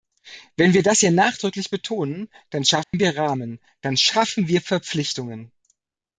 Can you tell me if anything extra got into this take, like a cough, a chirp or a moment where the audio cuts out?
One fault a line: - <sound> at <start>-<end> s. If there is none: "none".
- dropout at 2.8-2.9 s